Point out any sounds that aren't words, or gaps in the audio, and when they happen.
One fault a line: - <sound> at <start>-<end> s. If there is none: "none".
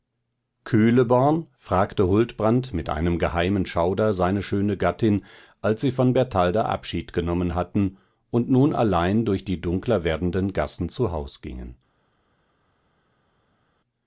none